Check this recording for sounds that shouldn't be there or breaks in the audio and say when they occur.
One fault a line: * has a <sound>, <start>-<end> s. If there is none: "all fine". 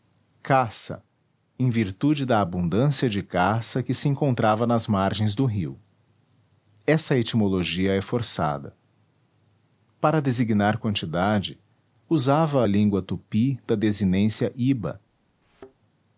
* has a thud, 15.4-15.8 s